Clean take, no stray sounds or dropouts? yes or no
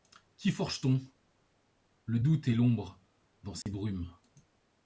no